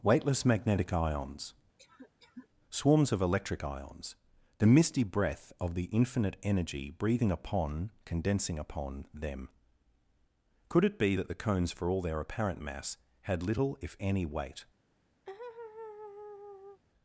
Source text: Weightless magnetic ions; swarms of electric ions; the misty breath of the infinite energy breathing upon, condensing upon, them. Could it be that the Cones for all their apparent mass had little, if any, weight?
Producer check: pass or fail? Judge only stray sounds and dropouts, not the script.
fail